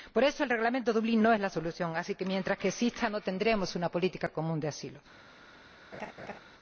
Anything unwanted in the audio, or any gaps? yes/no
yes